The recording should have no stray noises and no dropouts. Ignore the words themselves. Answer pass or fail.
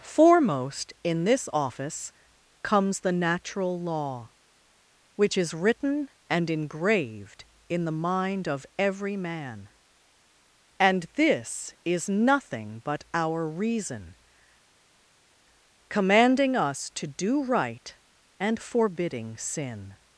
pass